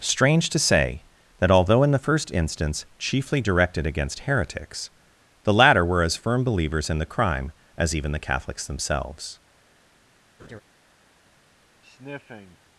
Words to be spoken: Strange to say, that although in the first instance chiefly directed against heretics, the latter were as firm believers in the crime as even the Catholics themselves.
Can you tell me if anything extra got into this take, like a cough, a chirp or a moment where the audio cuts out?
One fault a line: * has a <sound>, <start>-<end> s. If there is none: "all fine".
* has a laugh, 10.4-10.6 s
* has a sniff, 11.8-12.6 s